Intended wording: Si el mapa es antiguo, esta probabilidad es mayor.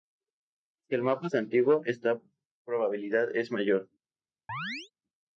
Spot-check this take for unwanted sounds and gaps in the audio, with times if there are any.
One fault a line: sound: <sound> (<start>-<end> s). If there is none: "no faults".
sound: chirp (4.5-4.9 s)